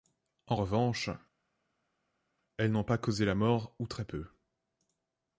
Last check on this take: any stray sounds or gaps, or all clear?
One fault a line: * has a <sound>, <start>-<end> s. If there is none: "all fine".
all fine